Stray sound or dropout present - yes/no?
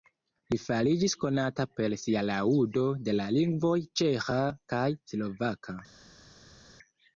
no